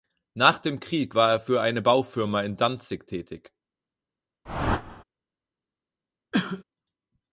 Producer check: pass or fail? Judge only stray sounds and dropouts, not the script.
fail